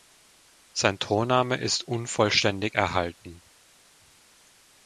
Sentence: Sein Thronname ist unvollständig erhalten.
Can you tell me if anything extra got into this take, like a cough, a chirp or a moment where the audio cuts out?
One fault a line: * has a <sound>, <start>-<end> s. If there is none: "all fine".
all fine